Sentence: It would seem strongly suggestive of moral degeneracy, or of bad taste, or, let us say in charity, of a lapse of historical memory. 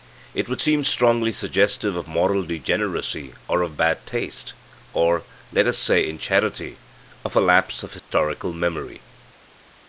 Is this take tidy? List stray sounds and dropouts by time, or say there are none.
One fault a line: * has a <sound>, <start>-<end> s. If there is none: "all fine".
* has a dropout, 8.0-8.1 s